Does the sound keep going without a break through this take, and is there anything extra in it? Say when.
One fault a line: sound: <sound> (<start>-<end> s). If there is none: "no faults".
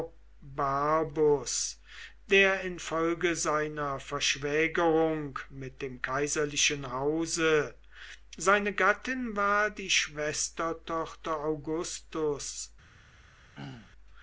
sound: throat clearing (13.5-13.9 s)